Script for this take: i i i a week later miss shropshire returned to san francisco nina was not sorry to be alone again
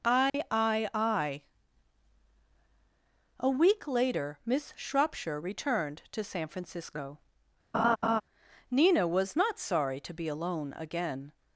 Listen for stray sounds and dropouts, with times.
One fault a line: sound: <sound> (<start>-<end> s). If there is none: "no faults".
sound: dropout (0.3-0.3 s)
sound: laugh (7.7-8.2 s)